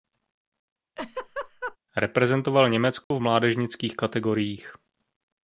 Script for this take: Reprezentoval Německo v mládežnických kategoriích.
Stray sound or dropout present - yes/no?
yes